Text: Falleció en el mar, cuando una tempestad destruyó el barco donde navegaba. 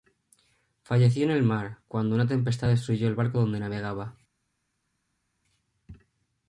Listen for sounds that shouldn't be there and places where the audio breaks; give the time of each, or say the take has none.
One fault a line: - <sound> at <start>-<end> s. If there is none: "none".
none